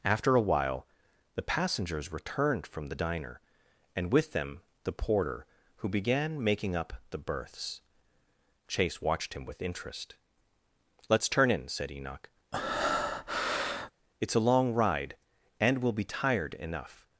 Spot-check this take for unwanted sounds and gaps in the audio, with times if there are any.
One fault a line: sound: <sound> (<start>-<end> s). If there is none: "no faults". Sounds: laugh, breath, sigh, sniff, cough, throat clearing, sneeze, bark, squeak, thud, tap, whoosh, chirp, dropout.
sound: breath (12.5-13.9 s)